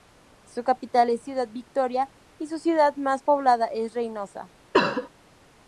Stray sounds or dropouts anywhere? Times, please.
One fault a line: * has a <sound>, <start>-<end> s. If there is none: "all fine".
* has a cough, 4.7-5.1 s